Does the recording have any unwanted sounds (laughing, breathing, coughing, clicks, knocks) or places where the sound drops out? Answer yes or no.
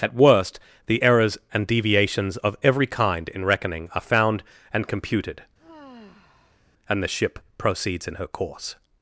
yes